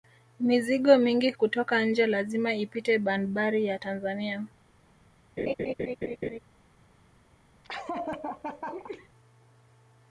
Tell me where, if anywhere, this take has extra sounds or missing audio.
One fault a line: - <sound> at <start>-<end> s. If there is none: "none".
- laugh at 5.4-6.4 s
- laugh at 7.6-9.1 s